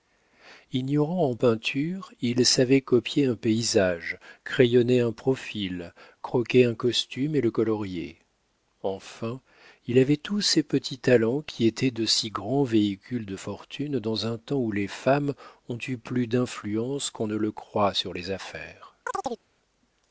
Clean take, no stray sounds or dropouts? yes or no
no